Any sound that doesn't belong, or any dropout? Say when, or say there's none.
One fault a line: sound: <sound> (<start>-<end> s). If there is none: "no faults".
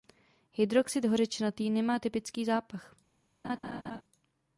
sound: laugh (3.4-4.0 s)